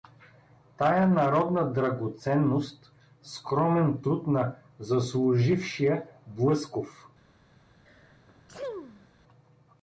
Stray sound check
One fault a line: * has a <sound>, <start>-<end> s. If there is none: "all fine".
* has a sneeze, 7.9-9.1 s